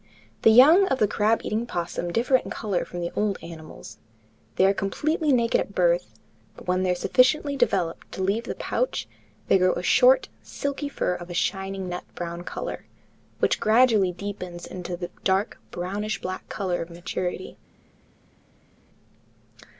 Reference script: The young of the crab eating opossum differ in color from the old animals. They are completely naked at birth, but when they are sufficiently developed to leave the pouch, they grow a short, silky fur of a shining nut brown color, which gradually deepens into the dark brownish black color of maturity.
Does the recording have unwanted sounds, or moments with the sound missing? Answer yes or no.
no